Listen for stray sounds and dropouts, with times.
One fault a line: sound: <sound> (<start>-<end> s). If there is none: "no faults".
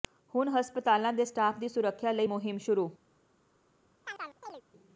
sound: chirp (4.0-4.6 s)